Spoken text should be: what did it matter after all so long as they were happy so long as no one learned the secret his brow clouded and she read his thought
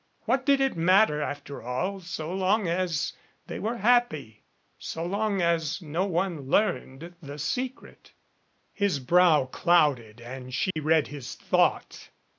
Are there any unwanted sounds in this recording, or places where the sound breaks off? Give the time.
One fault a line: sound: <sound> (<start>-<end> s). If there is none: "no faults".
sound: dropout (10.7-10.8 s)